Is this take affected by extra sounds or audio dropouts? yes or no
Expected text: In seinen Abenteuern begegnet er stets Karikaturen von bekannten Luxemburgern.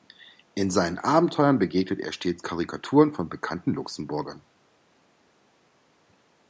no